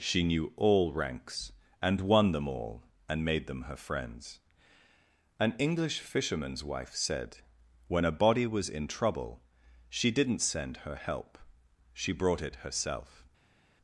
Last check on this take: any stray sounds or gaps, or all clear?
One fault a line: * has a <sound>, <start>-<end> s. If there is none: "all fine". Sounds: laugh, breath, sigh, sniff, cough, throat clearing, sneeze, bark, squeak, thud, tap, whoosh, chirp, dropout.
all fine